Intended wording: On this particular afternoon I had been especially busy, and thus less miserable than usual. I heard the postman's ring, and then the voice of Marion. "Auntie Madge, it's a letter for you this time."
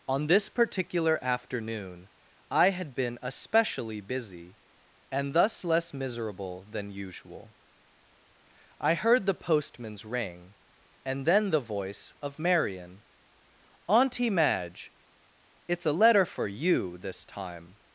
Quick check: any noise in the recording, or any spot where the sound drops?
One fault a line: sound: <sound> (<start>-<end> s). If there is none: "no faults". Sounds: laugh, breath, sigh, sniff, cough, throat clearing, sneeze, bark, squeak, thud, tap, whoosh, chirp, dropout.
no faults